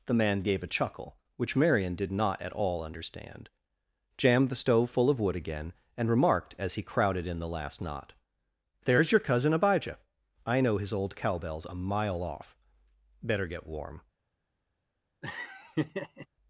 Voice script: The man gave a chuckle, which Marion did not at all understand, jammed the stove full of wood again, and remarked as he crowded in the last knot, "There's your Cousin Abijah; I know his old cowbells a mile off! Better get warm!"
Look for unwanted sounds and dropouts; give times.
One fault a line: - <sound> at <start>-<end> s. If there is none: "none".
- laugh at 15.2-16.3 s